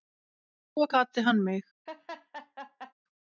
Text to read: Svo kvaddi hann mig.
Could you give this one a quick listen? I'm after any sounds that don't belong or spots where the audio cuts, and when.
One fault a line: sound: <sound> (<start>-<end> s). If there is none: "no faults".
sound: laugh (1.9-2.9 s)